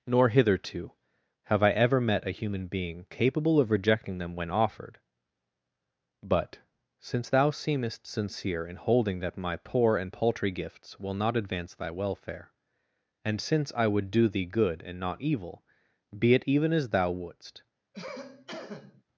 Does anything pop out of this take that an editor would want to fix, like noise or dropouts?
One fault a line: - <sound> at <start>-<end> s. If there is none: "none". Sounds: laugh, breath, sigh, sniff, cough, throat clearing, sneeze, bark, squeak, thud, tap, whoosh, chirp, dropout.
- cough at 17.9-19.0 s